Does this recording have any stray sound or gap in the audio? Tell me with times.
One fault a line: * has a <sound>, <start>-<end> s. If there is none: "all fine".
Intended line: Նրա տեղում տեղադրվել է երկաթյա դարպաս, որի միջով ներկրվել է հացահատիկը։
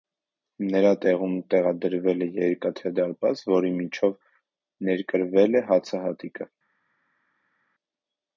all fine